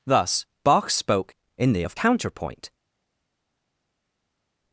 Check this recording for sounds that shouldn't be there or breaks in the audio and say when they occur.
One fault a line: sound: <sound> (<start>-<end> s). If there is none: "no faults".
no faults